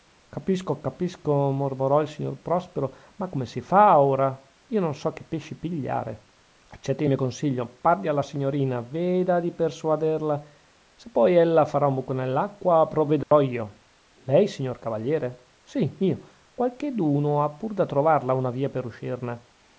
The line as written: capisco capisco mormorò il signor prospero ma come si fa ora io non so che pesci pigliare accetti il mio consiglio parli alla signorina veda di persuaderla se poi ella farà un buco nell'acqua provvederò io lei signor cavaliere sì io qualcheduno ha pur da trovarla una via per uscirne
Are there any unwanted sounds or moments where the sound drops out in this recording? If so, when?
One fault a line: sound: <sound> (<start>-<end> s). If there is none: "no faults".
sound: dropout (13.2-13.3 s)